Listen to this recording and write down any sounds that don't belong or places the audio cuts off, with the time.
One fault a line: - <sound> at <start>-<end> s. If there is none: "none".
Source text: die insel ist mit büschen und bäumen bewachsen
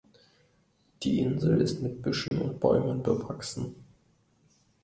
- dropout at 2.3-2.3 s